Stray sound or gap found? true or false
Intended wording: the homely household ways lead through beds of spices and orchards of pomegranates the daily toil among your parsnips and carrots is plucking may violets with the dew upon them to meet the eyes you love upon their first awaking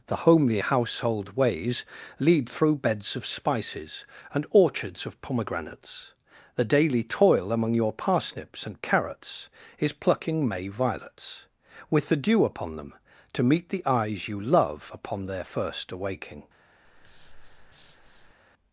true